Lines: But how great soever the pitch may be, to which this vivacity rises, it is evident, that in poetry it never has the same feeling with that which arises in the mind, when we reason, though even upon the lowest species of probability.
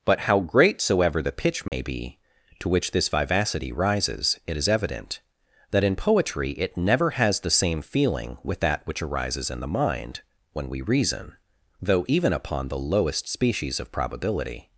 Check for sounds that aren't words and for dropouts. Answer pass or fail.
fail